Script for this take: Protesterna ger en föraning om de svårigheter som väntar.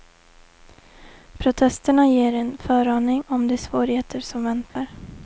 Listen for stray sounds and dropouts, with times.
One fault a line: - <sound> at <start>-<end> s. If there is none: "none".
- dropout at 4.7-4.8 s